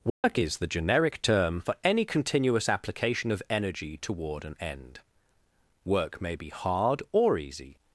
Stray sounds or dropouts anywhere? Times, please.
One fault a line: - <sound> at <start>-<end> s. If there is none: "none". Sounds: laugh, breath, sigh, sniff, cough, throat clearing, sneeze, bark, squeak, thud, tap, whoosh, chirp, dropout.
- dropout at 0.1-0.2 s